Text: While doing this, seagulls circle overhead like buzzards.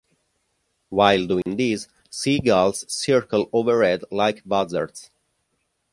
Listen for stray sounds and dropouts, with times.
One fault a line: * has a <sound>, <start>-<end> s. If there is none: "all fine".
* has a dropout, 1.4-1.5 s